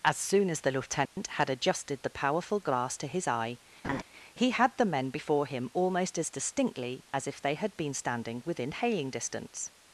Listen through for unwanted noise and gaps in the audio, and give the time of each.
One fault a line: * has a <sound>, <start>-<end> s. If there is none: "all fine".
* has a dropout, 1.1-1.2 s
* has a laugh, 3.8-4.0 s